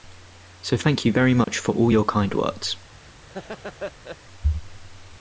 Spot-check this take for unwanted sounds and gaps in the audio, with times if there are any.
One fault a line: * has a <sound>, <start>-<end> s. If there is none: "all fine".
* has a dropout, 1.4-1.5 s
* has a laugh, 3.3-4.2 s